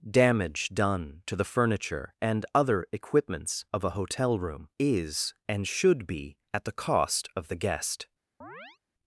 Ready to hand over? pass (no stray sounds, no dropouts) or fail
fail